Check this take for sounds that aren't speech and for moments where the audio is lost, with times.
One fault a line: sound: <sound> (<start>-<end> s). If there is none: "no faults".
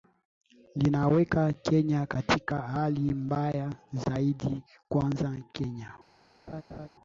sound: laugh (6.5-6.9 s)